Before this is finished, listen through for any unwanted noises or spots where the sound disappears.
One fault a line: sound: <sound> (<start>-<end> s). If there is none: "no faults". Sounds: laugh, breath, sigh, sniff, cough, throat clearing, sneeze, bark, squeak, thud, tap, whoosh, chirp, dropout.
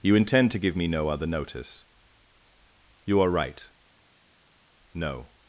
no faults